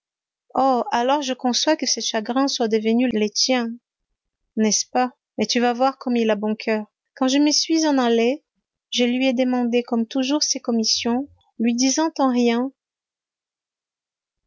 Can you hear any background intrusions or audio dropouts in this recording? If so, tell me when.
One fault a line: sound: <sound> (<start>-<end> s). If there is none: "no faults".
no faults